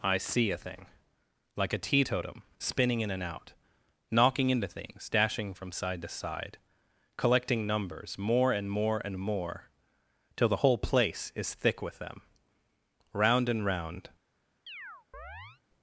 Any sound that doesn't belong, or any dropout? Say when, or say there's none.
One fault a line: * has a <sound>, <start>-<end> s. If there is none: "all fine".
* has a chirp, 14.7-15.6 s